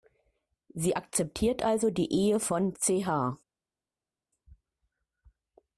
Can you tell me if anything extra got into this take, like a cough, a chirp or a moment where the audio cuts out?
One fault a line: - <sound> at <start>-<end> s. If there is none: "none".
none